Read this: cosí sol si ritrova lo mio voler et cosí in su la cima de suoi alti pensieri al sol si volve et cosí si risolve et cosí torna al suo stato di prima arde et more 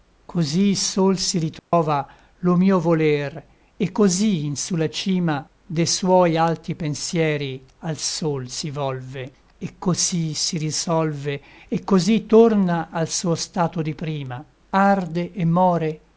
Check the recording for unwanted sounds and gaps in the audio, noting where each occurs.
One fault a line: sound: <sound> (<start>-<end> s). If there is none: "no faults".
sound: dropout (1.6-1.7 s)